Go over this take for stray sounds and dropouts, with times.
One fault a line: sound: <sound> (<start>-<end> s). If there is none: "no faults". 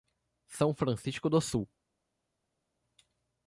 no faults